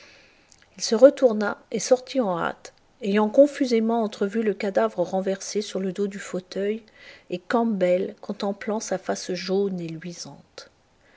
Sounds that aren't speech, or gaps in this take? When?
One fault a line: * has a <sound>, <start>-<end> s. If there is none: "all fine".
all fine